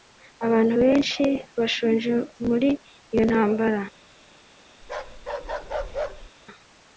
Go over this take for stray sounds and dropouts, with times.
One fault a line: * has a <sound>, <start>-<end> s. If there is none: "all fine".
* has a bark, 4.8-6.3 s